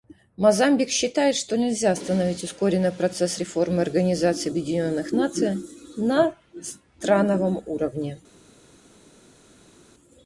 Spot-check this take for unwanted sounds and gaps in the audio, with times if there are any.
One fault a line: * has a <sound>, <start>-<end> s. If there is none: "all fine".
all fine